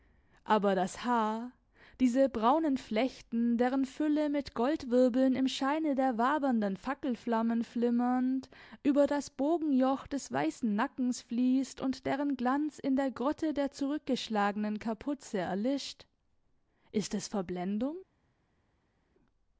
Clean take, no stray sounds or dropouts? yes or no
yes